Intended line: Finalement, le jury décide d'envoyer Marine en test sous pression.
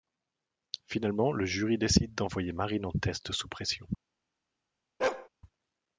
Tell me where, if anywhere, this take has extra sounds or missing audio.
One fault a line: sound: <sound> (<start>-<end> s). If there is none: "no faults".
sound: bark (5.0-5.3 s)